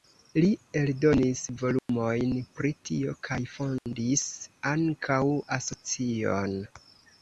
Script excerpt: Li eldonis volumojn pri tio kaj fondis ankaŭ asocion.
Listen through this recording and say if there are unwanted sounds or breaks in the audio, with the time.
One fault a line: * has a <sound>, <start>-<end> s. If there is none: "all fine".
* has a dropout, 1.8-1.9 s
* has a dropout, 3.8-3.9 s